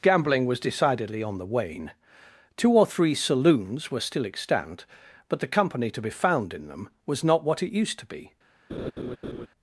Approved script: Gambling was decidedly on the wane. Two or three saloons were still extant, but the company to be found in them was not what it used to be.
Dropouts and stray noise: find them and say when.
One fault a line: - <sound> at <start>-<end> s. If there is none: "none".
- laugh at 8.7-9.5 s